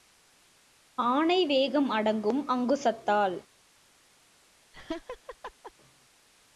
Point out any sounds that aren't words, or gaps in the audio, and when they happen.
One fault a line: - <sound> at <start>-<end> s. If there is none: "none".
- laugh at 4.7-5.7 s